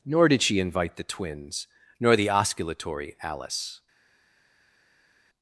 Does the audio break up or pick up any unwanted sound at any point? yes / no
no